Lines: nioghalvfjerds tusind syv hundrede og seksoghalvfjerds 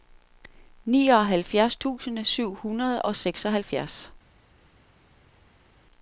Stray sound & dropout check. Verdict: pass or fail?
pass